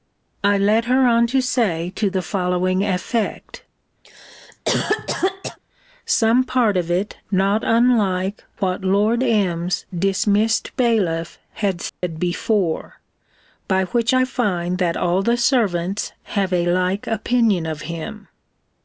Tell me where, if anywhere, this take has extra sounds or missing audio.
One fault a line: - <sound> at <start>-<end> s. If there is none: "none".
- cough at 4.0-5.6 s
- dropout at 11.9-12.0 s